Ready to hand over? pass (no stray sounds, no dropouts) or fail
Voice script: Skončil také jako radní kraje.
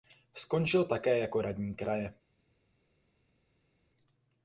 pass